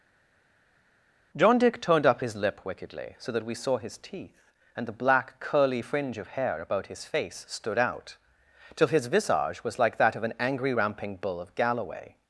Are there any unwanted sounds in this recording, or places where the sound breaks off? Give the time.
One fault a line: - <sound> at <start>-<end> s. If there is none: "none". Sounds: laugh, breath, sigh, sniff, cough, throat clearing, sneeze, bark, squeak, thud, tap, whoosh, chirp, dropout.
none